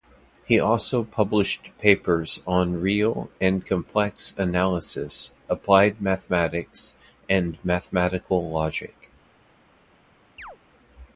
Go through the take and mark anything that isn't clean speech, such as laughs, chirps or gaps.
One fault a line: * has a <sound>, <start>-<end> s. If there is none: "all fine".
* has a chirp, 10.4-10.6 s